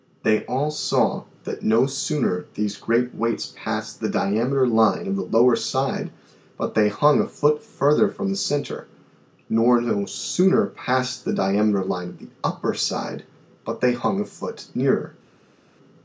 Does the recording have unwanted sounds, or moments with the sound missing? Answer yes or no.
no